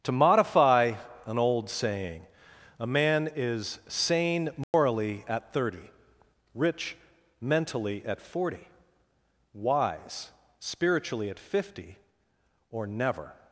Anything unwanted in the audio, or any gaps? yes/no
yes